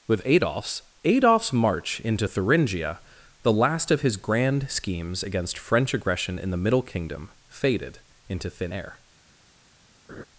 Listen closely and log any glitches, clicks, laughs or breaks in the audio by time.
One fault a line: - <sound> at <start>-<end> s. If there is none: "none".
- laugh at 10.1-10.2 s